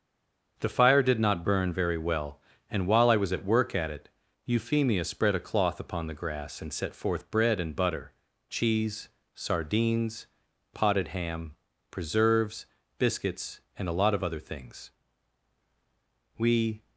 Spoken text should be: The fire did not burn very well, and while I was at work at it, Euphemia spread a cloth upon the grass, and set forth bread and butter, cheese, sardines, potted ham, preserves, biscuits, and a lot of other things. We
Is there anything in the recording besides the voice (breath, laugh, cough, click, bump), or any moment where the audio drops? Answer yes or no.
no